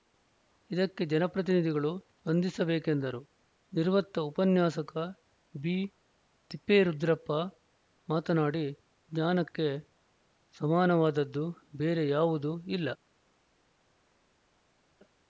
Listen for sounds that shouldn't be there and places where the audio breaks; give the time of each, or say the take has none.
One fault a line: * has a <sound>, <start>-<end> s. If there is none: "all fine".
all fine